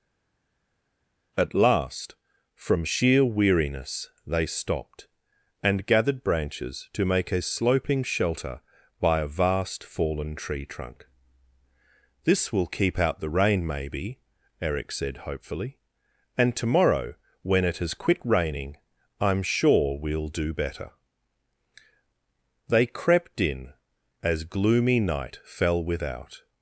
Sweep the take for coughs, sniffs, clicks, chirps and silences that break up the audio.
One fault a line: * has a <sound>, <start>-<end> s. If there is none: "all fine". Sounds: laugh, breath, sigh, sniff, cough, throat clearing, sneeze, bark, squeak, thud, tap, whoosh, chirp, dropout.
all fine